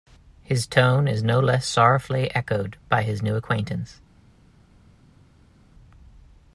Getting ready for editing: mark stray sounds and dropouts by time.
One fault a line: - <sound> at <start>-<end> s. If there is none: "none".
none